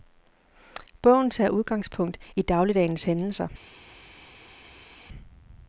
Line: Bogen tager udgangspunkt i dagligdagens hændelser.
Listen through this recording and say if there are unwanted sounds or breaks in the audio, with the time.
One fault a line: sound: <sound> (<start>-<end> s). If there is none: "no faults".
no faults